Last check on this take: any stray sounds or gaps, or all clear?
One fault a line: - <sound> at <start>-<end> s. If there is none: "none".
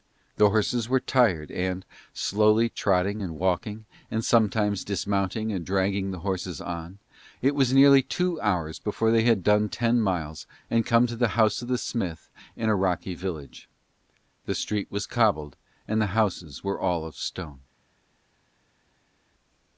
none